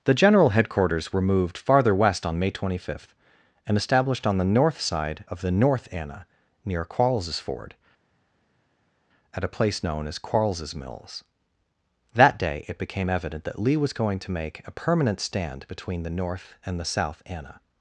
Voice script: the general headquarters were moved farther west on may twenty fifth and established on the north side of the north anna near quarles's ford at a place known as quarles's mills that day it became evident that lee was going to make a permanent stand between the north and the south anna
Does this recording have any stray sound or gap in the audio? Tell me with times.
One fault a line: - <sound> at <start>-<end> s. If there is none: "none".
none